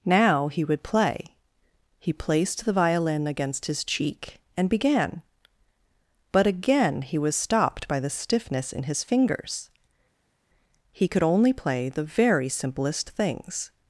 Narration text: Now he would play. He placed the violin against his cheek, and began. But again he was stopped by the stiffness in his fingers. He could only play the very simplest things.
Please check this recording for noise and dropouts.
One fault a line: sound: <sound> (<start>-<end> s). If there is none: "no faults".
no faults